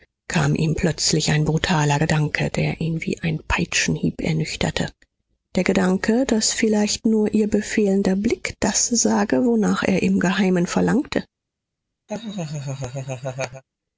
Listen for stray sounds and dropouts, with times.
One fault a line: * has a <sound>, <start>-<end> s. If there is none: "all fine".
* has a laugh, 12.1-13.6 s